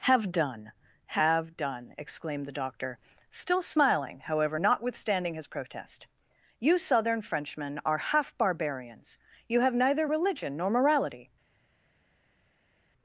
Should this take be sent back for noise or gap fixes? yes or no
no